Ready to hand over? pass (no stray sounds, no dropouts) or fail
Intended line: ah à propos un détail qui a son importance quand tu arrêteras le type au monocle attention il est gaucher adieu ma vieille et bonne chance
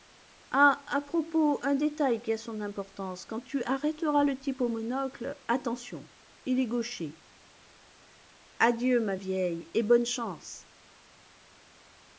pass